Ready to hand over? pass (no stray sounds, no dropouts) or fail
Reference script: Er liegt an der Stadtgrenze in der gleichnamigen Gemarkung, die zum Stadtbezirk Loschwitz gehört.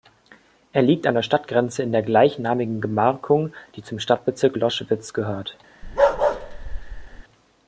fail